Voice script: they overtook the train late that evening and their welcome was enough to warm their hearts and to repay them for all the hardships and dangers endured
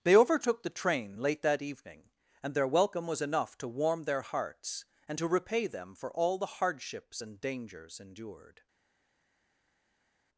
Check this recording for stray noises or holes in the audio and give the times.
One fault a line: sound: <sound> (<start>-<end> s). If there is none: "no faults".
no faults